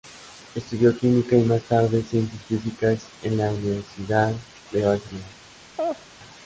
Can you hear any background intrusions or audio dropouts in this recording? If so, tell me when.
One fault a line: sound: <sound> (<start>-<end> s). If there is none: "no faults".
sound: laugh (5.8-6.1 s)